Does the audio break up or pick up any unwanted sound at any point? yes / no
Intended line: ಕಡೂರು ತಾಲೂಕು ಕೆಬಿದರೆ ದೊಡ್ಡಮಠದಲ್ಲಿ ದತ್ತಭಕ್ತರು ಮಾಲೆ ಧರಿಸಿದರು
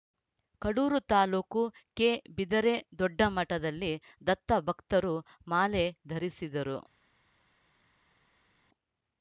no